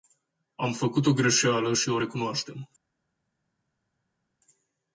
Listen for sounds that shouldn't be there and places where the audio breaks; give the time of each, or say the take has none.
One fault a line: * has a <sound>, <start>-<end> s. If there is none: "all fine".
all fine